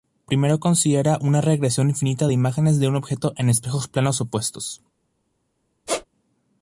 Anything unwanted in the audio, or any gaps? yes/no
yes